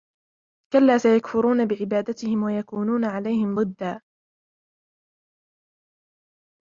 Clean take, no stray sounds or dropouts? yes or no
yes